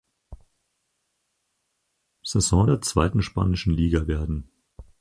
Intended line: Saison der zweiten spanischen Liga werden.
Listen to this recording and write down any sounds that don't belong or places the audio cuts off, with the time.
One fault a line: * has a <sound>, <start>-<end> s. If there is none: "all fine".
all fine